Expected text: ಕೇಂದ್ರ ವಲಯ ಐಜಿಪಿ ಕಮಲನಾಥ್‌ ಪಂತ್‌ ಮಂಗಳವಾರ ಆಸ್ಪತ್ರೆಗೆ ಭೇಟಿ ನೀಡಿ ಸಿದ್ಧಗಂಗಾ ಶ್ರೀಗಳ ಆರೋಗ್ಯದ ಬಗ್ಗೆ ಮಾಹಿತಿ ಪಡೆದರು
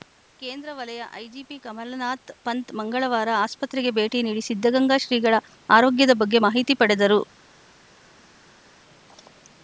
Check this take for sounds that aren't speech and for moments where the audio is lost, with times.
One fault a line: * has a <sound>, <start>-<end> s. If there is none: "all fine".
all fine